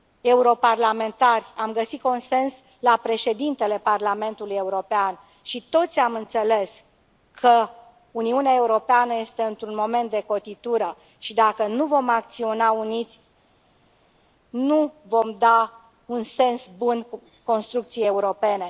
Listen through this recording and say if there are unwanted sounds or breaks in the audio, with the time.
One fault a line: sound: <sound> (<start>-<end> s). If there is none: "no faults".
no faults